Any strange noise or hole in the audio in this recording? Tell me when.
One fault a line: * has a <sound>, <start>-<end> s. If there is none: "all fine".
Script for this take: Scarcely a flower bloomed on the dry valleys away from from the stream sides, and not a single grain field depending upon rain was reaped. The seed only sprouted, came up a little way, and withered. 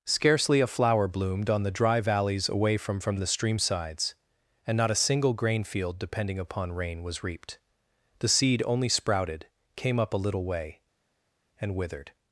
all fine